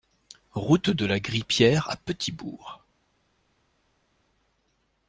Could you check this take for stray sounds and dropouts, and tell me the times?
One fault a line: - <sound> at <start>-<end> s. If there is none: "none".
none